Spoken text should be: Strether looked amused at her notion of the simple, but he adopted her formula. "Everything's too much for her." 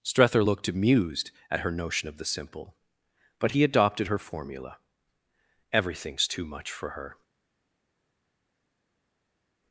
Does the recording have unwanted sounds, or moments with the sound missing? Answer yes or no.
no